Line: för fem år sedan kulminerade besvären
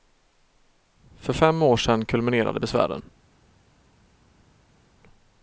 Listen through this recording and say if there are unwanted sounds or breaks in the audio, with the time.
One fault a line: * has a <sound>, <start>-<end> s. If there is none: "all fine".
all fine